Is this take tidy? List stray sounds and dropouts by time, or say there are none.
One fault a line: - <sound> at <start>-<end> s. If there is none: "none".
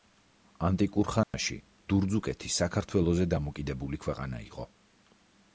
- dropout at 1.2-1.3 s